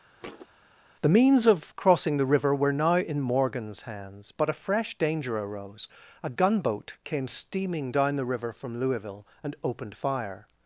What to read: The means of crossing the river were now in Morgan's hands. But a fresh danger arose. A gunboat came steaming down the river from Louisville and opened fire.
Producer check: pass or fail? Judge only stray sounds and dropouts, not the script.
fail